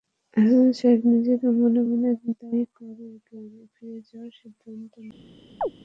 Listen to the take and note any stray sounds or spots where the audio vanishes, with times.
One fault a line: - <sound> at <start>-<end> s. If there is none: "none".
- chirp at 5.6-5.7 s